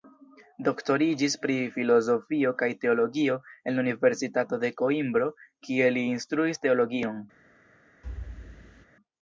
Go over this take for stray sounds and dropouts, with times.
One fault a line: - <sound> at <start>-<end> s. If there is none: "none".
- thud at 8.0-8.9 s